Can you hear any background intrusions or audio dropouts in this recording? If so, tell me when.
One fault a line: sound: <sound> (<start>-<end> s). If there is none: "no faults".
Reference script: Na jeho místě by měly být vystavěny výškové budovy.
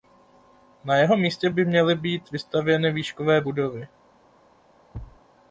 sound: thud (4.9-5.2 s)